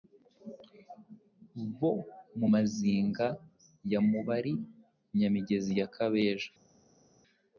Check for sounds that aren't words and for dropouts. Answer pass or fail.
pass